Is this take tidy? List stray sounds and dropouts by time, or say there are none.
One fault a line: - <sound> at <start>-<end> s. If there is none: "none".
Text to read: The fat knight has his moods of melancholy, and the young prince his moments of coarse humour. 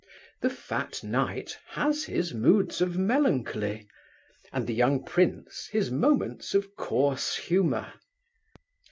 none